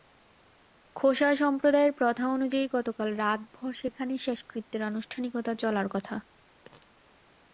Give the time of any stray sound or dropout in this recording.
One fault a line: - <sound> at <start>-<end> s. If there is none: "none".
none